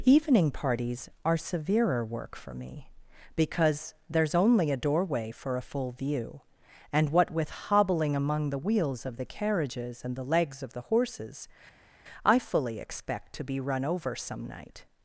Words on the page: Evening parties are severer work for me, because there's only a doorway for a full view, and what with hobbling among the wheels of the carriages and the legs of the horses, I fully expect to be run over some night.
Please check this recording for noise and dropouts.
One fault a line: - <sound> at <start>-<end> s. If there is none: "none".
none